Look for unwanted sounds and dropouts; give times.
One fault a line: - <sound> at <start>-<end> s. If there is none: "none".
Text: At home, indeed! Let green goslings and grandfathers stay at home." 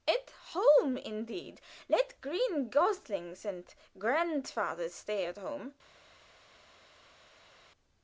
none